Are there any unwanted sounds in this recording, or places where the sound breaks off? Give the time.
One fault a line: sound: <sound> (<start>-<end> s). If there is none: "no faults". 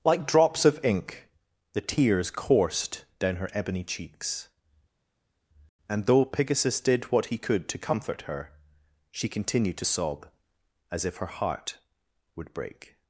no faults